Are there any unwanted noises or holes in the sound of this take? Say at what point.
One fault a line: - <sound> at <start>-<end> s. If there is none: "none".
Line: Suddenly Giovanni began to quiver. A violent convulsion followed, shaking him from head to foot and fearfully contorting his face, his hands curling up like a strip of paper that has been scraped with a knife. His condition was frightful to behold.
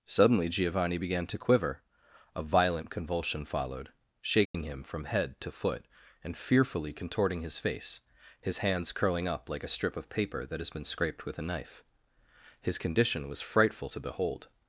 - dropout at 4.5-4.5 s